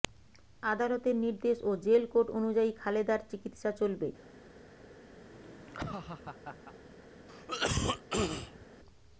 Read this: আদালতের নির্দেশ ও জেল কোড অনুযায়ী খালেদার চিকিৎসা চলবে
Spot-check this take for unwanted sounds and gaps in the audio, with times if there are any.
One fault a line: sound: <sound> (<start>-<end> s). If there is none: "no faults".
sound: laugh (5.2-6.8 s)
sound: cough (7.3-8.7 s)